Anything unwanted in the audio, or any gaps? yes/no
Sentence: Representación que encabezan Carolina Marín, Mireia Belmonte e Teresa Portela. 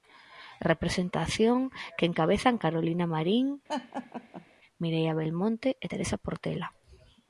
yes